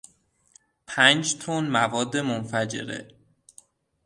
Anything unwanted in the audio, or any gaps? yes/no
no